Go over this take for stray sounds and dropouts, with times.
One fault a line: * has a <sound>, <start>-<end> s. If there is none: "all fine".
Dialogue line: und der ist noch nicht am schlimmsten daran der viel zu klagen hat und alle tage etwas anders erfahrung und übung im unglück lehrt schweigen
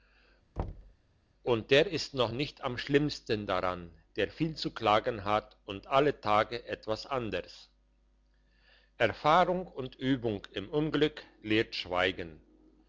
* has a thud, 0.6-0.9 s